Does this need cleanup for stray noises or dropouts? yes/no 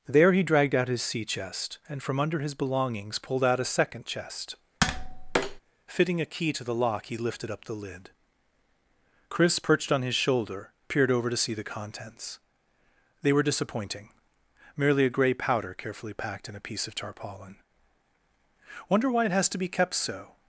yes